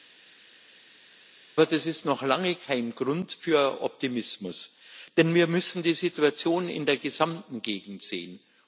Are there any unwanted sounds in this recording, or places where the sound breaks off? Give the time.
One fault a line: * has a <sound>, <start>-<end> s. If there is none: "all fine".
all fine